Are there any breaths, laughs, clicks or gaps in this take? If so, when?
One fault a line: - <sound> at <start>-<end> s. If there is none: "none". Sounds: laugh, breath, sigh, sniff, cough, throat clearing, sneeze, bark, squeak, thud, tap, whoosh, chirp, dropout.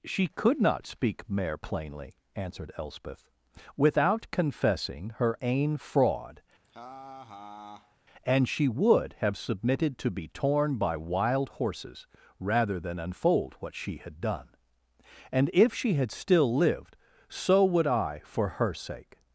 - laugh at 6.6-8.0 s